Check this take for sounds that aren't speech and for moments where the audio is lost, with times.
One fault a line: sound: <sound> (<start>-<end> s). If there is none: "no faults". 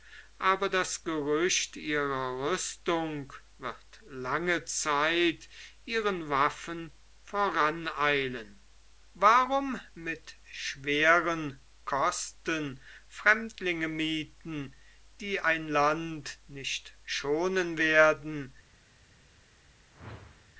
sound: whoosh (19.9-20.5 s)